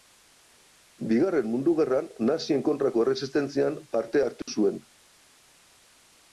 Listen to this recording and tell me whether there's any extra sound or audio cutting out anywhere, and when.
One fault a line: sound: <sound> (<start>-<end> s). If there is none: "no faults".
sound: dropout (4.4-4.5 s)